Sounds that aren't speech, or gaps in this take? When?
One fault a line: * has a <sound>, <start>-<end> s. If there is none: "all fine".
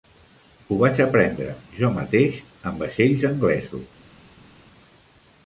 all fine